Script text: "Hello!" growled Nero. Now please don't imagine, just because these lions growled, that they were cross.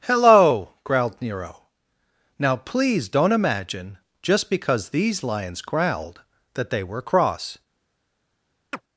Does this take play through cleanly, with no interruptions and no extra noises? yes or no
no